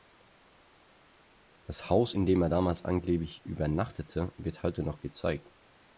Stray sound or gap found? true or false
false